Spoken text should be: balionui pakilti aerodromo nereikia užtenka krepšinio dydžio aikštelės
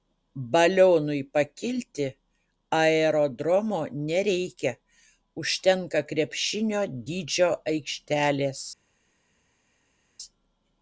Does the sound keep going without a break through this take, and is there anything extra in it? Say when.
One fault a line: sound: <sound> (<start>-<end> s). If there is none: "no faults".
no faults